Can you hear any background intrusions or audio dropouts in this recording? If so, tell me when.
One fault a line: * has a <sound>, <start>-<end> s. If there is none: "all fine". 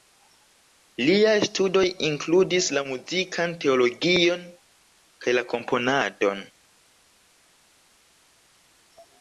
all fine